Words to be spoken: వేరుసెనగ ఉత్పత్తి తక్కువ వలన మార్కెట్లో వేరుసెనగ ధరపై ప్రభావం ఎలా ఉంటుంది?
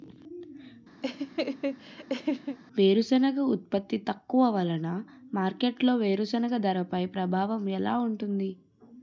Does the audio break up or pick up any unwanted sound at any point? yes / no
yes